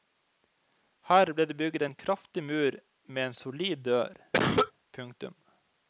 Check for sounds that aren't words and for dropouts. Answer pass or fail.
fail